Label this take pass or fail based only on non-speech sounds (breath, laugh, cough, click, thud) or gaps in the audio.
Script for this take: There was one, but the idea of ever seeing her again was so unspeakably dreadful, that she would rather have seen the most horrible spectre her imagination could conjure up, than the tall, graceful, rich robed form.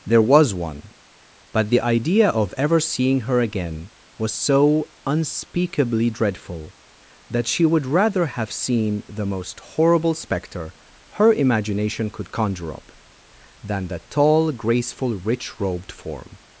pass